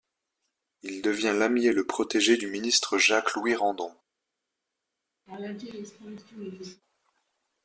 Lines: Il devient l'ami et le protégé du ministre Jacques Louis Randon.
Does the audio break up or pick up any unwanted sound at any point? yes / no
yes